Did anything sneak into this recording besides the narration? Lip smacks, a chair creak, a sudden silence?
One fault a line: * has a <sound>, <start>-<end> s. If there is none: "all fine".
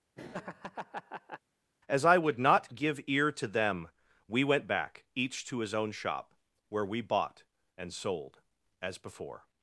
* has a laugh, 0.1-1.4 s